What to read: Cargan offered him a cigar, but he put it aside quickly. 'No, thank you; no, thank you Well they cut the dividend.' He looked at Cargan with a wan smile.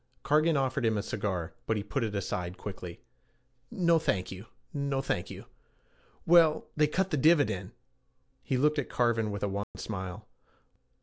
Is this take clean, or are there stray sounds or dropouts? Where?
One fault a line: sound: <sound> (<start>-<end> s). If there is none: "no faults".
sound: dropout (9.6-9.7 s)